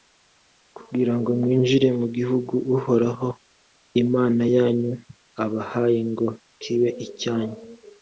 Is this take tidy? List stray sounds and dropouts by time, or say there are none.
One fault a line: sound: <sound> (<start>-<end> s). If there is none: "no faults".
no faults